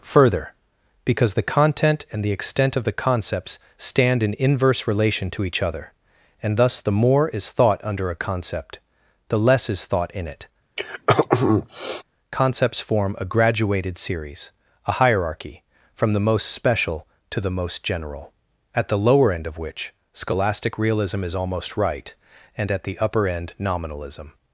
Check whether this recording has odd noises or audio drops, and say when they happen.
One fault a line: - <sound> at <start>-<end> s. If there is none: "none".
- throat clearing at 10.8-12.0 s